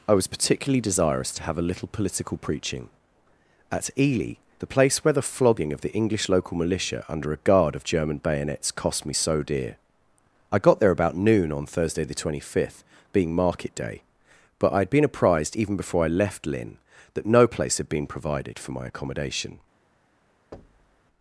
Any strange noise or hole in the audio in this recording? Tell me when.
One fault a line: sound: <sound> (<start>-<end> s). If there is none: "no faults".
sound: thud (20.5-21.0 s)